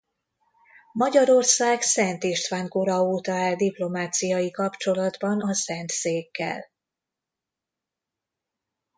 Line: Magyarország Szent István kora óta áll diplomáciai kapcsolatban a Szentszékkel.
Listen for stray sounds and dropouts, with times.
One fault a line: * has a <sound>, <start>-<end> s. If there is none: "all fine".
all fine